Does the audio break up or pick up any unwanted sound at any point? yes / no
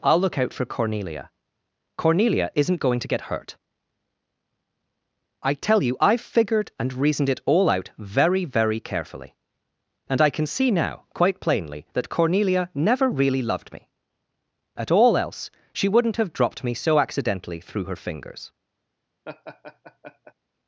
yes